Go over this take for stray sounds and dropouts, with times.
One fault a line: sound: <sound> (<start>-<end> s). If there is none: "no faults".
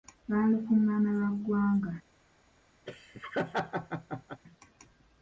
sound: laugh (2.9-4.4 s)